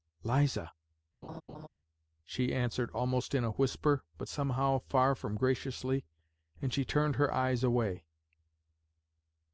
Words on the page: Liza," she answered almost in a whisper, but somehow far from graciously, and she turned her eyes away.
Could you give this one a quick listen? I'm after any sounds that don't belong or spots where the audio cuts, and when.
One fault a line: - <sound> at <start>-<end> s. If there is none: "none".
- laugh at 1.2-1.7 s